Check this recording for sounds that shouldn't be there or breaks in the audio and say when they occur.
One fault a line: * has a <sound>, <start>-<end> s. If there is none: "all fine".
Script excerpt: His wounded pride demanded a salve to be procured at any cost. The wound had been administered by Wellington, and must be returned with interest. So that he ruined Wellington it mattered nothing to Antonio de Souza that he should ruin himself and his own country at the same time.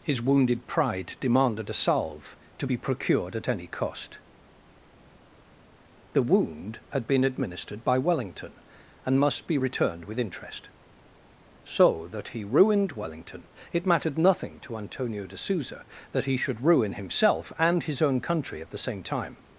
all fine